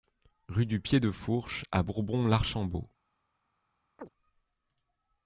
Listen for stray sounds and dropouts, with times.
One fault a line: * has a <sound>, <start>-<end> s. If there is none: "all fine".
* has a chirp, 4.0-4.1 s